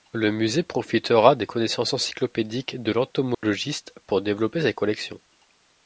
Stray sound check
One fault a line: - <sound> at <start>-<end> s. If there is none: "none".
- dropout at 3.3-3.4 s